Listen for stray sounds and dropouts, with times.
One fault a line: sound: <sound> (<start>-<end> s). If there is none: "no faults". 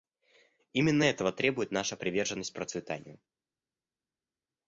no faults